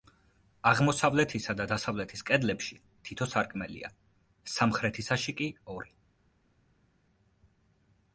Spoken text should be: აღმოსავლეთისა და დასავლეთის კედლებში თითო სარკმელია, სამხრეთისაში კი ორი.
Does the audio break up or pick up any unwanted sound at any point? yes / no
no